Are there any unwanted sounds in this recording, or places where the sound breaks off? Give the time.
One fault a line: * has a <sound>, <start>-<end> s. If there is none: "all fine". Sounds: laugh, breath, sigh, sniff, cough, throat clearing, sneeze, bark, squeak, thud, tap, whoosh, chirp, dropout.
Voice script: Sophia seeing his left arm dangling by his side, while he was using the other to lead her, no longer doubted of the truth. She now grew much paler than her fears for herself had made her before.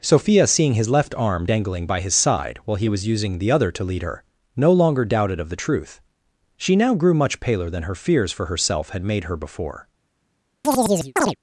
* has a chirp, 10.6-11.4 s